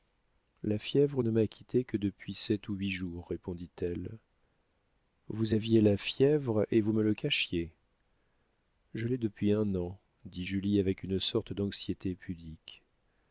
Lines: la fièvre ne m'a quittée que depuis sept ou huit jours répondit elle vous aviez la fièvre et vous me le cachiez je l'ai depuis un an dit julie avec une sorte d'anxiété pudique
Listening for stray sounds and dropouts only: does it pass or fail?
pass